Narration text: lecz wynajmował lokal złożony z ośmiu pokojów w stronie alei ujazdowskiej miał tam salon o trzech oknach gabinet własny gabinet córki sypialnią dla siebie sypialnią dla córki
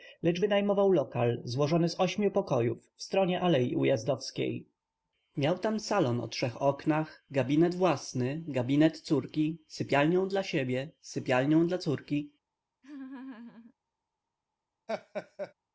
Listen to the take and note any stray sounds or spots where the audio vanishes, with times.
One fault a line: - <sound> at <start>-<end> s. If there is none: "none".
- laugh at 12.8-13.7 s
- laugh at 14.9-15.5 s